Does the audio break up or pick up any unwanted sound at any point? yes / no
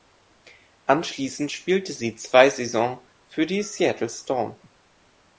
no